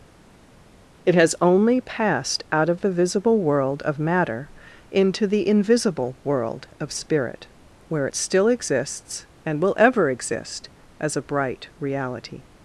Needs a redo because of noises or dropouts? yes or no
no